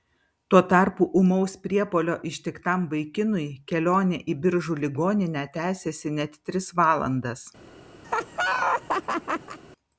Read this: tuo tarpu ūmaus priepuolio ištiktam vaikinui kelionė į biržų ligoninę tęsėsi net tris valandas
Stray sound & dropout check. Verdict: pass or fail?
fail